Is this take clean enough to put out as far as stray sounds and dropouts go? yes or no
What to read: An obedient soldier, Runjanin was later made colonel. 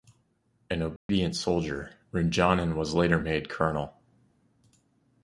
no